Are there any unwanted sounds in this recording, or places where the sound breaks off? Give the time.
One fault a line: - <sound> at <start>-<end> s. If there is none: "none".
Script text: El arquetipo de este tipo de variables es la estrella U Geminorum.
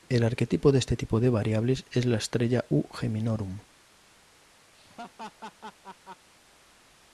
- laugh at 4.7-6.3 s